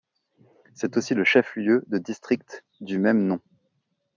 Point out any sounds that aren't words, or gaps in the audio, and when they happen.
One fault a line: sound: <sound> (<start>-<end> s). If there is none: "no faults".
no faults